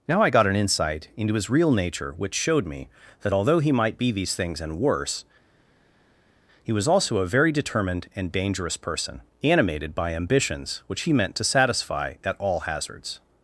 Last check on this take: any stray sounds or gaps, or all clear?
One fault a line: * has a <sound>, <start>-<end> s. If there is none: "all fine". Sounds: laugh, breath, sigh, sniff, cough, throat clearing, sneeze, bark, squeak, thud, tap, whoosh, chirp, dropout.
all fine